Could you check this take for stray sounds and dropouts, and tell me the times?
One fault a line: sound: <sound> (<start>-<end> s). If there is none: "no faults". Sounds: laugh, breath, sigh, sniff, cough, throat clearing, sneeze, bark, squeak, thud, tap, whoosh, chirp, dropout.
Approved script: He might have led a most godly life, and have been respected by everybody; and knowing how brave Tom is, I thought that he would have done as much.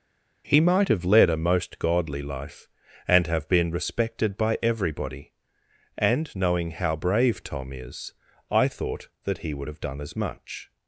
no faults